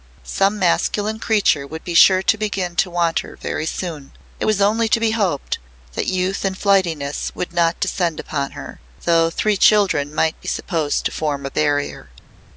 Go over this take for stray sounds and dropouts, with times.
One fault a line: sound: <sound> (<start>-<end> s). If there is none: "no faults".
no faults